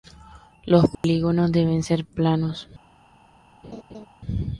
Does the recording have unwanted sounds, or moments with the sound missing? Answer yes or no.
yes